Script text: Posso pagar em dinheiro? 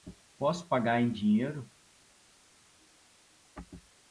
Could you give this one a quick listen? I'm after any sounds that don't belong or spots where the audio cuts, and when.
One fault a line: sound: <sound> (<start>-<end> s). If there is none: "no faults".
no faults